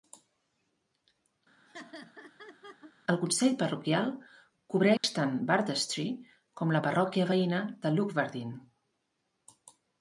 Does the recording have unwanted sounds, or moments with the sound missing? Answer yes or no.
yes